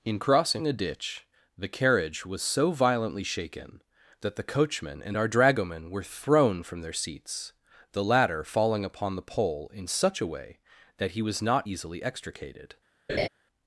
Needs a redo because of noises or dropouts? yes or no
yes